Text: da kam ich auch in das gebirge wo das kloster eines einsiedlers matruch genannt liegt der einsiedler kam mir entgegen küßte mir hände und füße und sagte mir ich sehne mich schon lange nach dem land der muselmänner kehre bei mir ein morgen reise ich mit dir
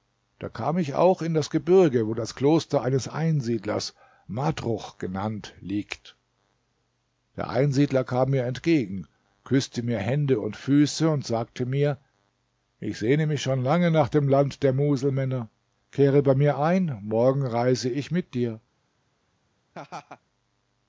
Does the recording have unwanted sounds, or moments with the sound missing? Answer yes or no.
yes